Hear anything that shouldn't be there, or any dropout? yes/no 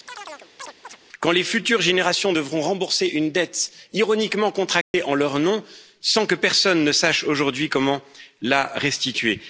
yes